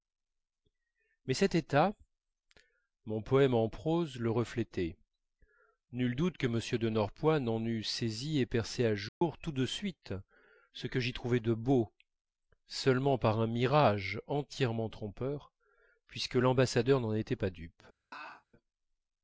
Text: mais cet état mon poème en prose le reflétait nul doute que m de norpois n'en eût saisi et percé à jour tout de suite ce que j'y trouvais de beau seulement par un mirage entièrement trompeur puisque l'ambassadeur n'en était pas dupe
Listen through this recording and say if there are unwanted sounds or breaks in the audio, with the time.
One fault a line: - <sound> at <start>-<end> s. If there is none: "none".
- dropout at 9.1-9.2 s
- laugh at 18.1-18.4 s